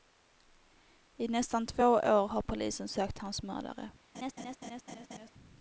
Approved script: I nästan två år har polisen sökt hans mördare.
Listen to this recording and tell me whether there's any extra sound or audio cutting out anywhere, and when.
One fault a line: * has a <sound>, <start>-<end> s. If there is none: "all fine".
* has a laugh, 4.1-5.3 s